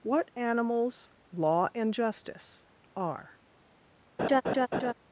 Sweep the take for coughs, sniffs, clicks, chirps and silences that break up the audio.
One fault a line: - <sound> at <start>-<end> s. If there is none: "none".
- laugh at 4.2-4.9 s